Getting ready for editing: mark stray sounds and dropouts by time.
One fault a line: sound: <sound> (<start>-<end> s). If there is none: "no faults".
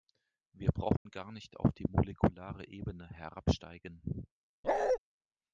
sound: dropout (1.0-1.1 s)
sound: bark (4.6-5.0 s)